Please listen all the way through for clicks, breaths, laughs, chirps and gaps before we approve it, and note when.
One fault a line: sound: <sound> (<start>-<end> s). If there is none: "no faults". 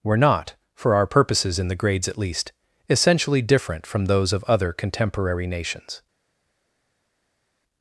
no faults